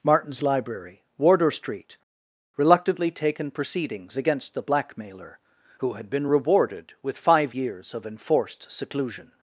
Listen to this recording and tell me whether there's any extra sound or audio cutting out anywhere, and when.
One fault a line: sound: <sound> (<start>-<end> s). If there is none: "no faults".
no faults